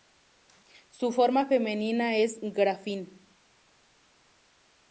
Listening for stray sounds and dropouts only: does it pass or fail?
pass